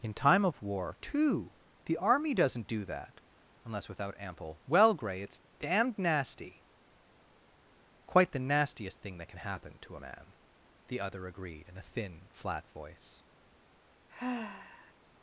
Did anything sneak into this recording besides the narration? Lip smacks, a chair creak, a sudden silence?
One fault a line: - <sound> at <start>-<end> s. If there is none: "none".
- sigh at 14.1-14.9 s